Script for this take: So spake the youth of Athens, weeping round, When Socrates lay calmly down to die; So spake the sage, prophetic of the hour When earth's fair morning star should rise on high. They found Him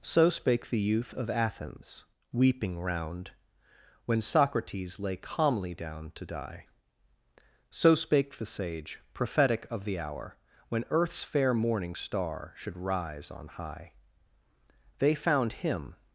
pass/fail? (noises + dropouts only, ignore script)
pass